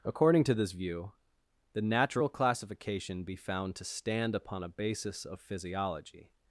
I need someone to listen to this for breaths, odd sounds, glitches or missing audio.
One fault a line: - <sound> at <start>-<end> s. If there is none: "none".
none